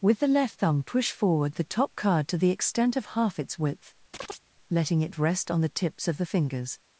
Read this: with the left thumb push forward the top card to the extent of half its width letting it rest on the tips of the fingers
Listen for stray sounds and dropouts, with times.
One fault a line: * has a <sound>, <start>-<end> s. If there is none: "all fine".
* has a chirp, 4.1-4.4 s